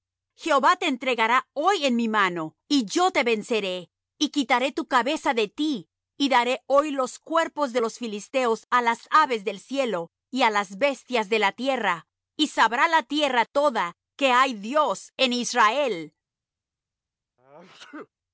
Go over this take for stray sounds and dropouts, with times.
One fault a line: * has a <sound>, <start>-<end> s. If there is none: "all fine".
* has a sneeze, 17.4-18.1 s